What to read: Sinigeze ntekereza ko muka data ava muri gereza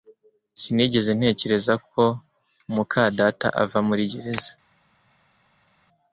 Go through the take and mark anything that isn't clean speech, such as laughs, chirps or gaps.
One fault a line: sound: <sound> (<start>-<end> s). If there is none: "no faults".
no faults